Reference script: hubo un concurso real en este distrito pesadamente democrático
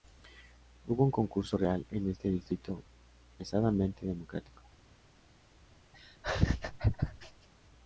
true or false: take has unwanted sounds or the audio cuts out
true